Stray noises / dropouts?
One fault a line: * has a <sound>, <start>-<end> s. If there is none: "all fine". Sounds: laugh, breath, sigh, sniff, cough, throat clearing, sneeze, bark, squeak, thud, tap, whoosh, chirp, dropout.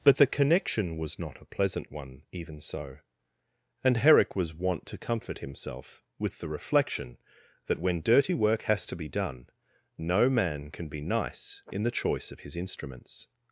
all fine